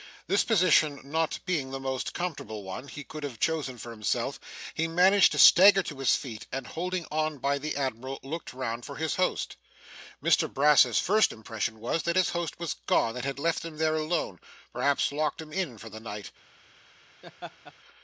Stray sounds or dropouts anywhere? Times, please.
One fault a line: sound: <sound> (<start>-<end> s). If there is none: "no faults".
sound: laugh (17.2-17.7 s)